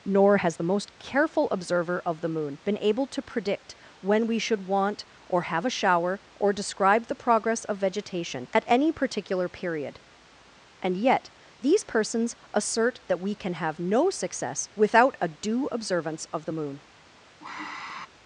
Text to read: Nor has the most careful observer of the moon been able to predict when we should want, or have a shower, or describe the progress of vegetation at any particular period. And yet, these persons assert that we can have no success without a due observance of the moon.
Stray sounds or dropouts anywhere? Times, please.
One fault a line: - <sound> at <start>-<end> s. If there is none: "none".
- sigh at 17.4-18.1 s